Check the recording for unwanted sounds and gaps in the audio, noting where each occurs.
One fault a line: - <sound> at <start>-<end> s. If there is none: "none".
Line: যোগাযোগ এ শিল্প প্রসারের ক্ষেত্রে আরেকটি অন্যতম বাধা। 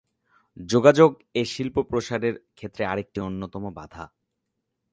none